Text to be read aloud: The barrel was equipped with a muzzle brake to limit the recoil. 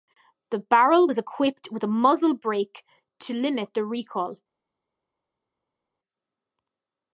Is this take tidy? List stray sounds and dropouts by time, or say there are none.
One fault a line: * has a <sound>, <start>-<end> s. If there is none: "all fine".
all fine